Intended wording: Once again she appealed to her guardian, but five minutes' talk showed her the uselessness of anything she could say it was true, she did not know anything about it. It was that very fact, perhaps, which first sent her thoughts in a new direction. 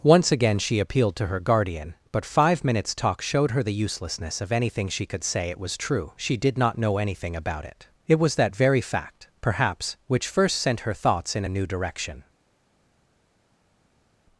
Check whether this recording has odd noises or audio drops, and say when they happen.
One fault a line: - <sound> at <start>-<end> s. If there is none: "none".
none